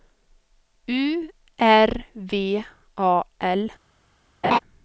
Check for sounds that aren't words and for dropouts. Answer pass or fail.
fail